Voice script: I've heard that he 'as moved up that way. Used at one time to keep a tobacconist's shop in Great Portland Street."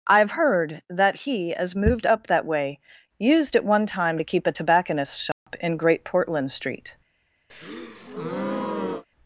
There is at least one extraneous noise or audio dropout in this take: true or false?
true